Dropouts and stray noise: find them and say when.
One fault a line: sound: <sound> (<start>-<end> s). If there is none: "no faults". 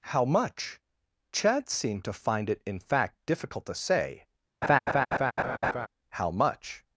sound: laugh (4.6-5.9 s)